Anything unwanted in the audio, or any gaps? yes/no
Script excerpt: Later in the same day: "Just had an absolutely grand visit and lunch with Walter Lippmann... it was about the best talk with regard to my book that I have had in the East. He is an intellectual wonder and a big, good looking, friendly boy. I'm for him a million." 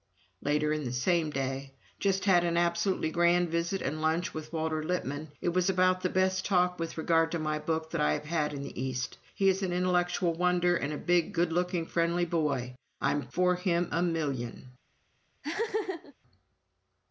yes